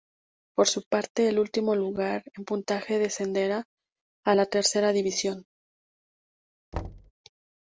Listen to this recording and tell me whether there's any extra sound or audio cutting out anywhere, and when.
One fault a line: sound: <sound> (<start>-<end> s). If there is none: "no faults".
sound: thud (6.7-7.1 s)